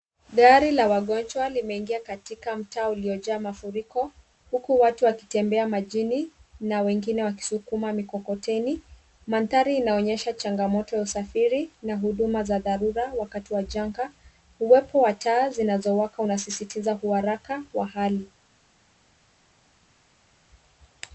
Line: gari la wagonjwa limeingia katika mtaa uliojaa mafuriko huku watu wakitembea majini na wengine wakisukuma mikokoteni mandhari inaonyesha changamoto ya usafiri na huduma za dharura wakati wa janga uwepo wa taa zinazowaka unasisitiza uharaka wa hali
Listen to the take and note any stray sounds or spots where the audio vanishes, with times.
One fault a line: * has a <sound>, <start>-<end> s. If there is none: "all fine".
all fine